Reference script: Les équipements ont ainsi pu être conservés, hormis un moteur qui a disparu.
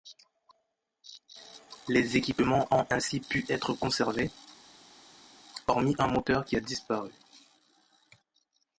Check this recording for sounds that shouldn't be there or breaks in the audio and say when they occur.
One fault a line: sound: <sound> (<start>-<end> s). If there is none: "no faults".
no faults